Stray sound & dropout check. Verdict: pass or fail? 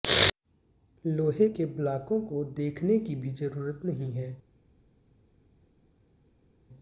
pass